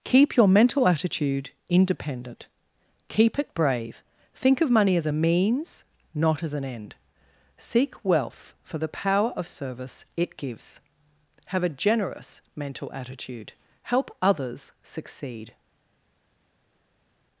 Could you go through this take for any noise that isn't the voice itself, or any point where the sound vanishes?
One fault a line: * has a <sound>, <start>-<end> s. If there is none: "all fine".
all fine